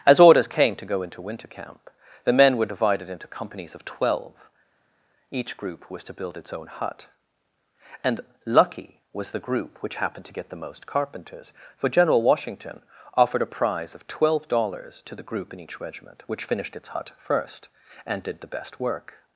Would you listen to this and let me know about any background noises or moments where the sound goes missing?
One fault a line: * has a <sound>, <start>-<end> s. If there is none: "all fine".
all fine